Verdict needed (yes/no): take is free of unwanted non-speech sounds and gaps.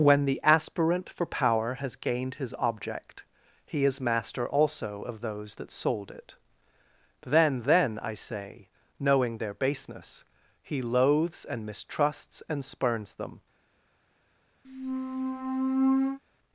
no